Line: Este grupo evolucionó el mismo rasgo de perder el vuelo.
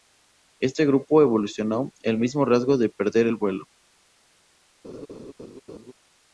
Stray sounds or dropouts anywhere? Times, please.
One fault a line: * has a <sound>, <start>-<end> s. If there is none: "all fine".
* has a laugh, 4.8-5.9 s